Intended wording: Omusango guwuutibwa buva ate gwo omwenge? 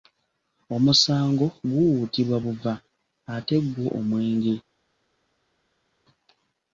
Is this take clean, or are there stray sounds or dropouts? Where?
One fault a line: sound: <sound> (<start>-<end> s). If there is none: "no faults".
no faults